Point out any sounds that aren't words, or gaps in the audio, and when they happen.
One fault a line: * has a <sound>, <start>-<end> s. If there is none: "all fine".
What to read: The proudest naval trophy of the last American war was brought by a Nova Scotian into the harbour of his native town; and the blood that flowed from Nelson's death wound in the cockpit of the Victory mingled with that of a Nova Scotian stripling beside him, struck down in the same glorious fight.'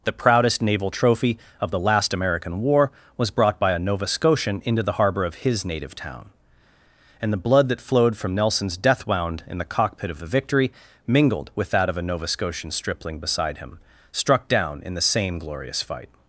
all fine